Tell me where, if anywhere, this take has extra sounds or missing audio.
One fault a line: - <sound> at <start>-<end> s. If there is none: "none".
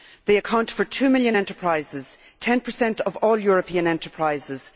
none